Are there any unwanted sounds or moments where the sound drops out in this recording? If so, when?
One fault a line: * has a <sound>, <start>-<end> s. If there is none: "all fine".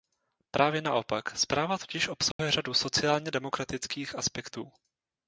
* has a dropout, 2.3-2.4 s